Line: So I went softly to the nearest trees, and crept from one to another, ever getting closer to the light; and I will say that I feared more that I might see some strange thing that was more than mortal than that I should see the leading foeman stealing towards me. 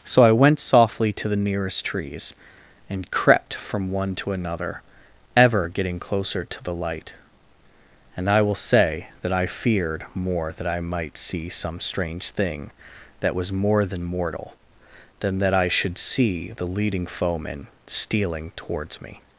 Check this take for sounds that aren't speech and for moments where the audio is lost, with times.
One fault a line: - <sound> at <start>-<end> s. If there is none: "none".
none